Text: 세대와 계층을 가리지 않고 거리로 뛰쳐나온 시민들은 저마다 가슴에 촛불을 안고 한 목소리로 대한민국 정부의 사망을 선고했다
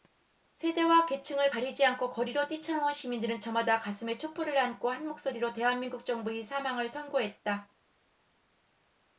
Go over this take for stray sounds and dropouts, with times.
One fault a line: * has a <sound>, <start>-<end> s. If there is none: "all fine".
all fine